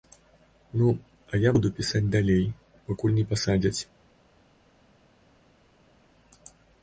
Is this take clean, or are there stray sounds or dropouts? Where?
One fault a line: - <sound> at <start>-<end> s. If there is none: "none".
none